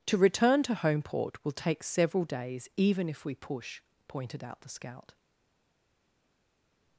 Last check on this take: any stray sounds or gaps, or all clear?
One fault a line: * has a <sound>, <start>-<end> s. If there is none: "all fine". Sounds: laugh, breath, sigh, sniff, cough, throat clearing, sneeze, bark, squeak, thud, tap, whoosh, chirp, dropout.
all fine